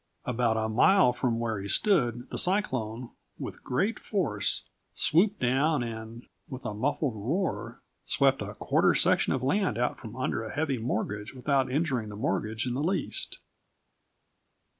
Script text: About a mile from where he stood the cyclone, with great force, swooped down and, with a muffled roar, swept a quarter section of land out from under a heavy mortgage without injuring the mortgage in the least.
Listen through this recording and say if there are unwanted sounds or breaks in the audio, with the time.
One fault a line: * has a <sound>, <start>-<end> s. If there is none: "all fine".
all fine